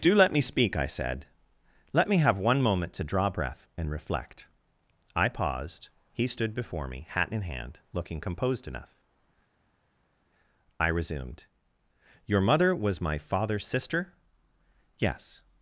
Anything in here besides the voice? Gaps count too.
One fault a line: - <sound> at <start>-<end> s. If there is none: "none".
none